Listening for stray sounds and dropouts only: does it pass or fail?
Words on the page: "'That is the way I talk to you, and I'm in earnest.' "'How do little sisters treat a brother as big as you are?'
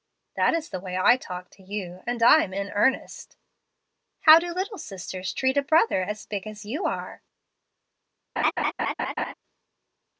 fail